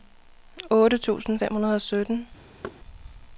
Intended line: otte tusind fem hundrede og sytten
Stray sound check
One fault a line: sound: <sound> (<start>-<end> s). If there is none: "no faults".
sound: thud (2.6-2.8 s)